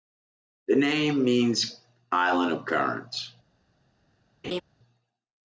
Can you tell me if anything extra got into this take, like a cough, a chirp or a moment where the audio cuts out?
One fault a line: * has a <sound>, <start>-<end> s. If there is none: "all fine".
* has a laugh, 4.4-4.6 s